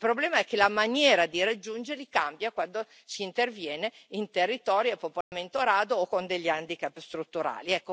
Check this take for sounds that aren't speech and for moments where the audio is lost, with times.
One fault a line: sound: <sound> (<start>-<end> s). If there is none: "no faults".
sound: dropout (5.2-5.3 s)